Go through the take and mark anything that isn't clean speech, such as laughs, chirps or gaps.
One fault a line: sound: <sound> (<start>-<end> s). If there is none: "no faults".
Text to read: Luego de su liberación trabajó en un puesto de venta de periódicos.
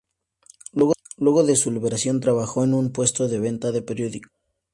no faults